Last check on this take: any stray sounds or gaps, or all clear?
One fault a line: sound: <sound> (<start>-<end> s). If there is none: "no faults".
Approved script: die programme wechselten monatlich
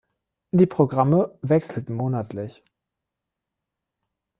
no faults